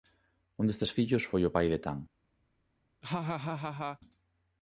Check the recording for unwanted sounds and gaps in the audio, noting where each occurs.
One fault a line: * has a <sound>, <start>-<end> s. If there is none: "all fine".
* has a laugh, 3.0-4.0 s